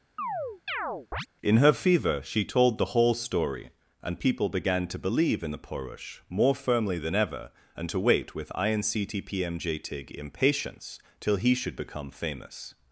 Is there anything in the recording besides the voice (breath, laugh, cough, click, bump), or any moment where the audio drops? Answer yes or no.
yes